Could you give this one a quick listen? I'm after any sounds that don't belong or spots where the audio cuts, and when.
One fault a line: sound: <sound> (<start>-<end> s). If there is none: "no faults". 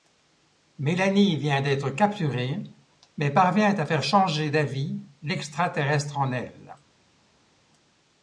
no faults